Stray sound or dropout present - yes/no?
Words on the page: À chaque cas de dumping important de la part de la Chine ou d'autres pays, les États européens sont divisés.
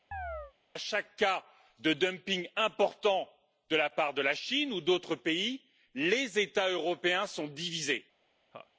yes